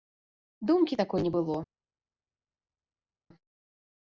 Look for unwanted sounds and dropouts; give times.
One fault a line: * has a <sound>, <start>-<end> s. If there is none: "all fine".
all fine